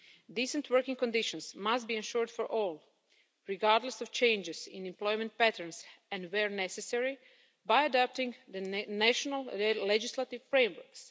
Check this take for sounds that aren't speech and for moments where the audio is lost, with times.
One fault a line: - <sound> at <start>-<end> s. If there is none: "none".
none